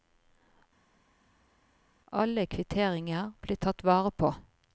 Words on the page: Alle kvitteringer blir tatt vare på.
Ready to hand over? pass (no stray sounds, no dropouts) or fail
pass